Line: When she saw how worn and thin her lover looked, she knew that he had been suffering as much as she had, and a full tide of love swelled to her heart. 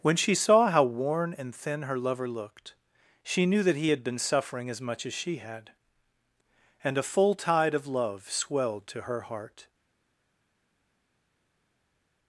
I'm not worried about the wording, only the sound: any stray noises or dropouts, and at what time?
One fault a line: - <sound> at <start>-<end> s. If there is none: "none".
none